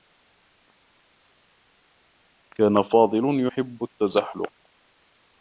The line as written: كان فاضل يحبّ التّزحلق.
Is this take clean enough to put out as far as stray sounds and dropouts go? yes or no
yes